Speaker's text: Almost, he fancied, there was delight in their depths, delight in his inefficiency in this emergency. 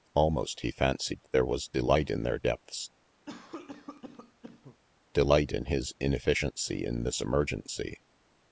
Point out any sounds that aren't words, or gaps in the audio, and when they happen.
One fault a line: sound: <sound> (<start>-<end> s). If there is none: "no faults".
sound: cough (3.3-4.8 s)